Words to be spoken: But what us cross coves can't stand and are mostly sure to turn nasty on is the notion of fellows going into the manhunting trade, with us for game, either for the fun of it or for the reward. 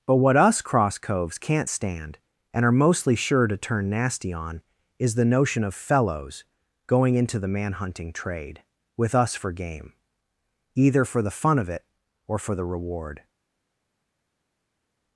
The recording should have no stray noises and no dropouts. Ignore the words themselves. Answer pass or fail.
pass